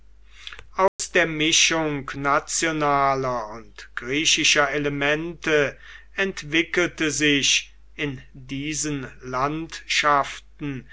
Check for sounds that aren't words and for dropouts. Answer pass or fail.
fail